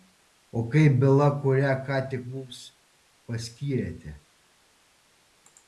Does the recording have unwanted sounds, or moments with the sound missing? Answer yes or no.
no